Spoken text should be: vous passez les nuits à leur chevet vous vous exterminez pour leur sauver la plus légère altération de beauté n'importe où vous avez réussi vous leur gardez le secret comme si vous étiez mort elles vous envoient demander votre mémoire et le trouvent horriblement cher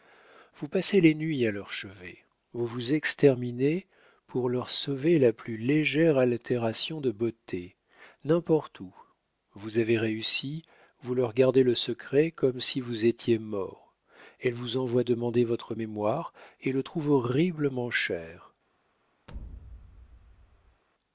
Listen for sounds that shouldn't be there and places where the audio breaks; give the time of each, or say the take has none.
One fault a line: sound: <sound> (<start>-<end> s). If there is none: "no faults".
sound: thud (19.3-20.8 s)